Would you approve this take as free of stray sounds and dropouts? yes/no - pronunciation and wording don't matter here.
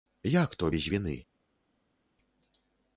yes